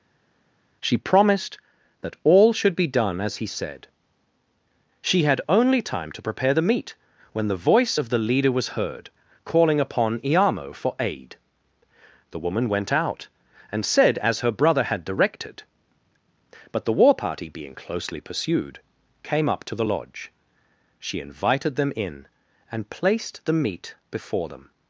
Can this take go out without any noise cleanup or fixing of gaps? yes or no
yes